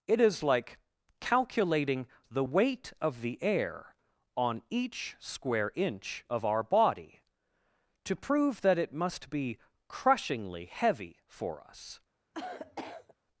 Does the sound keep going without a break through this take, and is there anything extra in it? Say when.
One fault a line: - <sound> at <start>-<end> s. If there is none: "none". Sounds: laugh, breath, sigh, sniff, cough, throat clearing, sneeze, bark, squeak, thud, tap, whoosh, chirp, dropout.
- cough at 12.3-13.1 s